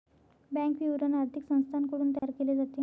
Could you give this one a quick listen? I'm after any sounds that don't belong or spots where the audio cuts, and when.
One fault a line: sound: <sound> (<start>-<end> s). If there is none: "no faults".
sound: dropout (2.2-2.2 s)